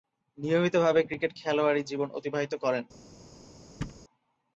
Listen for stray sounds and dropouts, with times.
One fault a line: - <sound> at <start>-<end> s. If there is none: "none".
- thud at 3.8-4.0 s